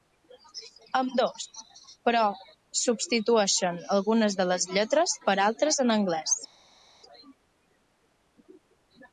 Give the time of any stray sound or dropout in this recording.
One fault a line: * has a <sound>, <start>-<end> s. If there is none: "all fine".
all fine